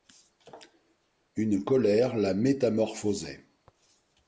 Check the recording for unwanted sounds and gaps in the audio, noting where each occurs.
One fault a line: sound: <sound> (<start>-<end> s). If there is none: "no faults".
no faults